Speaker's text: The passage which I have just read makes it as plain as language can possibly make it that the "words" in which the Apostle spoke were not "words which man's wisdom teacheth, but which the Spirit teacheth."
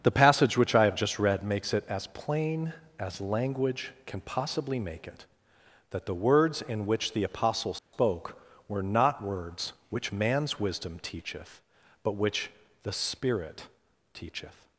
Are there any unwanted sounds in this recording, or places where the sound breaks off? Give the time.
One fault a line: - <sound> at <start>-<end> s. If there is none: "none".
- dropout at 7.8-7.9 s